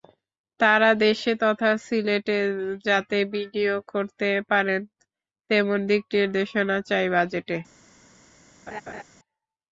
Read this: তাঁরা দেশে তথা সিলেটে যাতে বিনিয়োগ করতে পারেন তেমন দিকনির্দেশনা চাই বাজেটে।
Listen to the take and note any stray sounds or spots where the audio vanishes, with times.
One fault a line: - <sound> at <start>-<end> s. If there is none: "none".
- laugh at 8.7-9.0 s